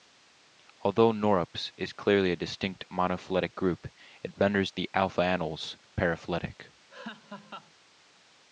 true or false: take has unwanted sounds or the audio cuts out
true